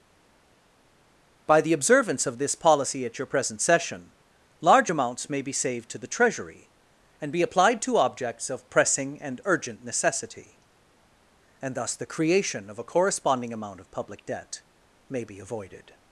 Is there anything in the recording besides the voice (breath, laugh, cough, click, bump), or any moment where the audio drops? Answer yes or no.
no